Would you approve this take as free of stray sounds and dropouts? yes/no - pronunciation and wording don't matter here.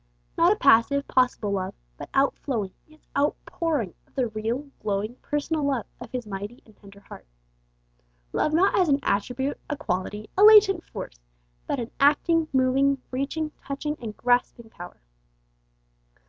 yes